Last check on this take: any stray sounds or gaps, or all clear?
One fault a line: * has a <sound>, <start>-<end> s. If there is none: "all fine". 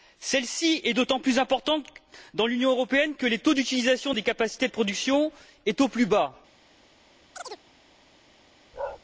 * has a chirp, 7.3-7.6 s
* has a bark, 8.7-9.0 s